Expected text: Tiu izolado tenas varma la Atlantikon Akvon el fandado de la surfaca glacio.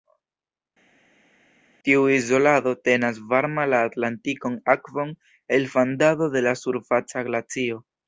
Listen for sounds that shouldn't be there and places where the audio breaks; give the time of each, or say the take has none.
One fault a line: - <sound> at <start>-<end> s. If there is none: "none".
none